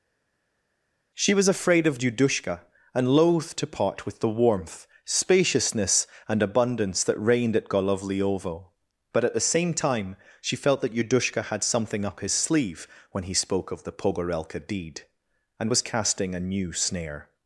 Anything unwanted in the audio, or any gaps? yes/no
no